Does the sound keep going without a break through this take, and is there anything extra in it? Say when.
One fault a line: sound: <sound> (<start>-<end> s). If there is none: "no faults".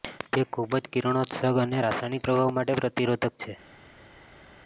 no faults